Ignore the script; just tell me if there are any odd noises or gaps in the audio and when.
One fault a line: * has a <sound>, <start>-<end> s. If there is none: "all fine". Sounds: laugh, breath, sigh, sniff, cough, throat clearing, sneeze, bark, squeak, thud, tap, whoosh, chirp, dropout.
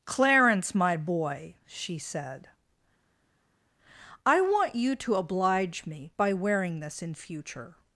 all fine